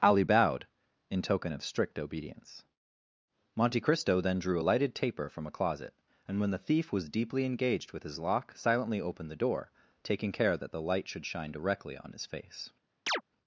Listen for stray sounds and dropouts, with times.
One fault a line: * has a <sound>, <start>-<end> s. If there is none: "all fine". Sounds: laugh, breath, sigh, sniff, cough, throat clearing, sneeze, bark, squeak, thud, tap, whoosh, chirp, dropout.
* has a chirp, 13.1-13.2 s